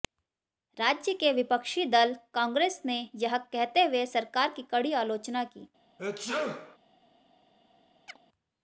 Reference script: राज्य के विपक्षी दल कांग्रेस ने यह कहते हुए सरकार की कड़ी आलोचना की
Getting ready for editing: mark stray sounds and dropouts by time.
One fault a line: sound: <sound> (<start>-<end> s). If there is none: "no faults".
sound: sneeze (6.0-6.8 s)
sound: chirp (8.1-8.2 s)